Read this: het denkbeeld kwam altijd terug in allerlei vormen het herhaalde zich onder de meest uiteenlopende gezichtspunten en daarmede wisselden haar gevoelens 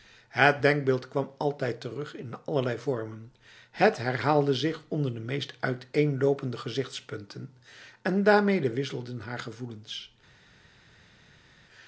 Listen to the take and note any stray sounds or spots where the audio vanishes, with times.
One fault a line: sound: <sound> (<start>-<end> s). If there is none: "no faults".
no faults